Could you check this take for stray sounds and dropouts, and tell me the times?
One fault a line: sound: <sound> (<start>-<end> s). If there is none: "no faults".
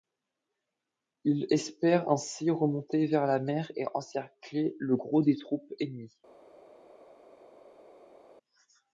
no faults